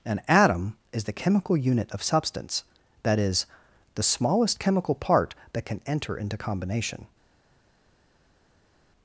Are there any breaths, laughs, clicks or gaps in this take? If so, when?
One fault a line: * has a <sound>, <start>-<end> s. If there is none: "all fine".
all fine